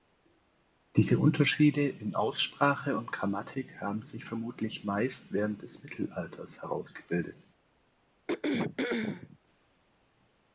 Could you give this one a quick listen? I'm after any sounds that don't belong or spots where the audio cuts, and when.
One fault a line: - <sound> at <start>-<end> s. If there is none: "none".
- throat clearing at 8.3-9.4 s